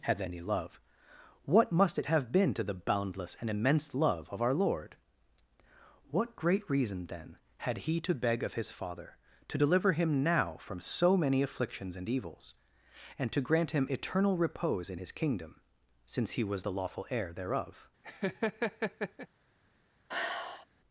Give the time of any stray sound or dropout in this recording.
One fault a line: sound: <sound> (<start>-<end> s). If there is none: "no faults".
sound: laugh (18.0-19.3 s)
sound: sigh (20.1-20.7 s)